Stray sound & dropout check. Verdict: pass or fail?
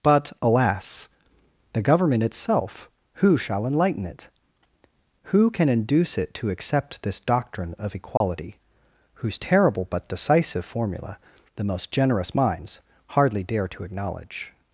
fail